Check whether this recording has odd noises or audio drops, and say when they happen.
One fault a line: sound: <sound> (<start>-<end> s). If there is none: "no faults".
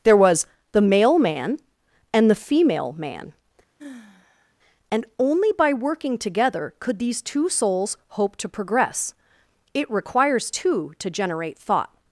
sound: sigh (3.8-4.5 s)